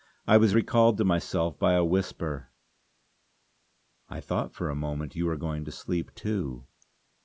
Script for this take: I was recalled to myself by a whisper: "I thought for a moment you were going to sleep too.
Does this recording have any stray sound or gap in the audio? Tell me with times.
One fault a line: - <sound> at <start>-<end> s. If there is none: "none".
none